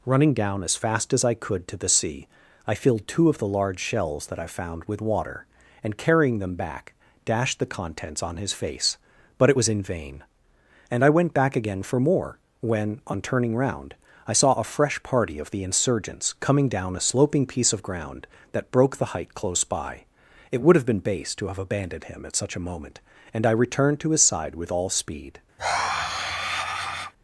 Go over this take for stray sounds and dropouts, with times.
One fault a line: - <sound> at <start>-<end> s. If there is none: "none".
- sigh at 25.6-27.1 s